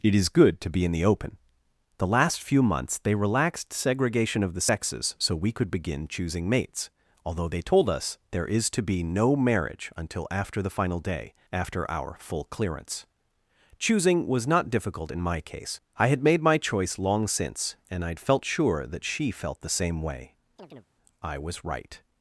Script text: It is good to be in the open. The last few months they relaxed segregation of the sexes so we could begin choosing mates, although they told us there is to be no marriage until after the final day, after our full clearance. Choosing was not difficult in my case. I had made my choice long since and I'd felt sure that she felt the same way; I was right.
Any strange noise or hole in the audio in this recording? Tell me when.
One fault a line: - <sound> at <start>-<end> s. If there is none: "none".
- chirp at 20.6-20.9 s